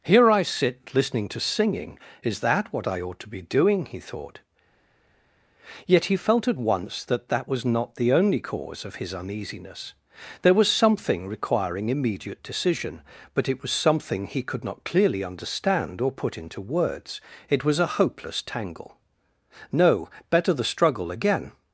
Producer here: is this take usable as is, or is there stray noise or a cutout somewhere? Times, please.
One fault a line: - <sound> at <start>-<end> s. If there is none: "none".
none